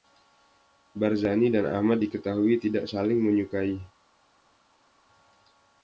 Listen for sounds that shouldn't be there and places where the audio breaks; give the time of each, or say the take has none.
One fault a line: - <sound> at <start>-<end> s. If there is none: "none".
none